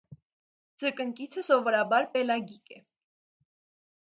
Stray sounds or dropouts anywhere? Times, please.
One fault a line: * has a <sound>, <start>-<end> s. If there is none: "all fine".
all fine